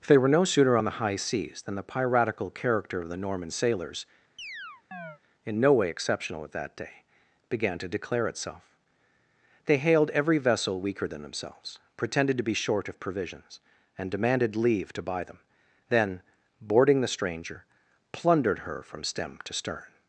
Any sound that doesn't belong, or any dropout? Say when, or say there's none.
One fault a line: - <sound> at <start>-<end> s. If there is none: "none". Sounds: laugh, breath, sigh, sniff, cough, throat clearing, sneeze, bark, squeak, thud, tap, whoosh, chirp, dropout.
- chirp at 4.4-5.2 s